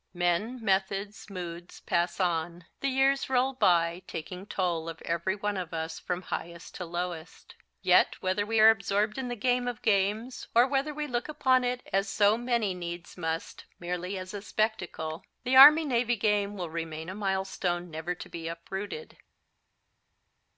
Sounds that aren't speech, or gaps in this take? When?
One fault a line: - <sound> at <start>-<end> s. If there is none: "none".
none